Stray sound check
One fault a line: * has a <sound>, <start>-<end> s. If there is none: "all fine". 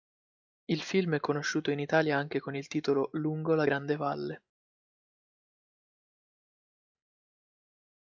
all fine